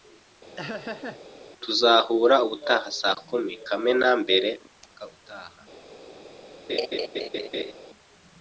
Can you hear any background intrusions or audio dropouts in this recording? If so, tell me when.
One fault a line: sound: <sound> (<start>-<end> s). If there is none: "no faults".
sound: laugh (0.6-1.2 s)
sound: laugh (6.7-7.7 s)